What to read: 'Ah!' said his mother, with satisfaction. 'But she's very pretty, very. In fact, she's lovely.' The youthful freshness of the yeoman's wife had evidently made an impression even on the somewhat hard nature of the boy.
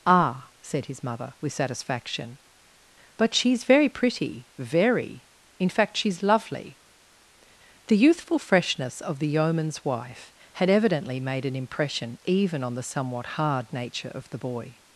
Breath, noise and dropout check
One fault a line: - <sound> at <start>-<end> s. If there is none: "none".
none